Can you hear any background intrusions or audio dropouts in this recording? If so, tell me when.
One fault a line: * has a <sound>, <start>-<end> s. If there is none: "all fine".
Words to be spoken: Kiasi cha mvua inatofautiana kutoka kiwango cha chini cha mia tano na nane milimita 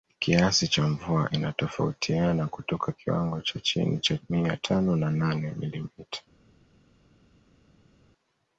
all fine